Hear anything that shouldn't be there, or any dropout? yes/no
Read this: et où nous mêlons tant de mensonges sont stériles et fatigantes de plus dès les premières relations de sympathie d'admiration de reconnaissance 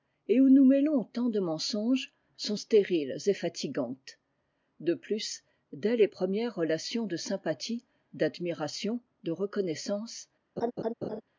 yes